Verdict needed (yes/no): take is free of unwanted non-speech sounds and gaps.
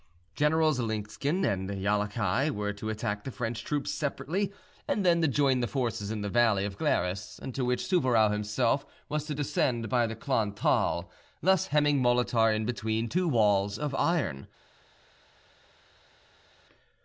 yes